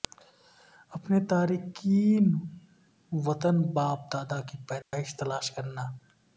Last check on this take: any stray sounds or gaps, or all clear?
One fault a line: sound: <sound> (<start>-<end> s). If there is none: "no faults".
sound: dropout (4.8-4.9 s)